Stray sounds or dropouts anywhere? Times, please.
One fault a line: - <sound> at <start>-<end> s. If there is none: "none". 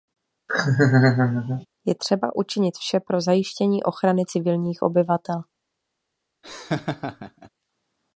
- laugh at 0.5-1.7 s
- laugh at 6.4-7.5 s